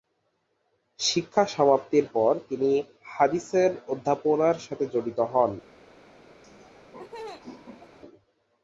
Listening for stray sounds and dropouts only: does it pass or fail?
fail